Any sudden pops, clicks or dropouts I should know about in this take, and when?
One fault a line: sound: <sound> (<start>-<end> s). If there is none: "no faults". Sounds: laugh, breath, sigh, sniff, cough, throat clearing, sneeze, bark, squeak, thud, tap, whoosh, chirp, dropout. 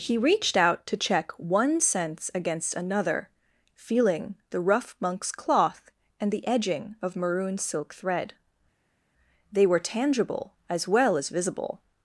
no faults